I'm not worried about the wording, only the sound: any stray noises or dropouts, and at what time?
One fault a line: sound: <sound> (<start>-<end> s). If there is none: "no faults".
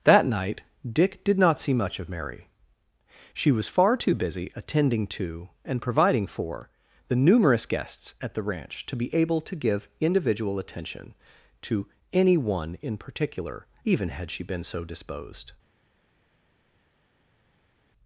no faults